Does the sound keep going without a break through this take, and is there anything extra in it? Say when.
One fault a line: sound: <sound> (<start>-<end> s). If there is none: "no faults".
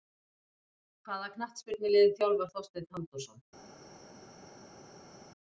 no faults